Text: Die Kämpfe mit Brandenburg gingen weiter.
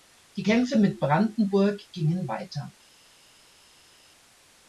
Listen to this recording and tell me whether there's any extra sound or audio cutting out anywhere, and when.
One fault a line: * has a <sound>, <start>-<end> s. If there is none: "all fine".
all fine